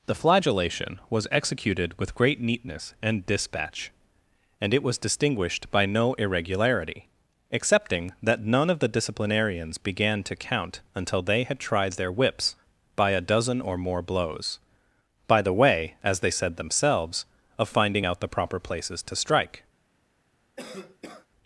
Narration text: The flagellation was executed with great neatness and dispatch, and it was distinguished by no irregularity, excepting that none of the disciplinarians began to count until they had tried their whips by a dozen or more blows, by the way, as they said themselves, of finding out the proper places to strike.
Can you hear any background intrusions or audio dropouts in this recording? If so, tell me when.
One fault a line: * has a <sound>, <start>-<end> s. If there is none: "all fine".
* has a cough, 20.6-21.3 s